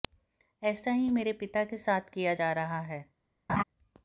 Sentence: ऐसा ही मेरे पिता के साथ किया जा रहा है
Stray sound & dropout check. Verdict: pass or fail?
fail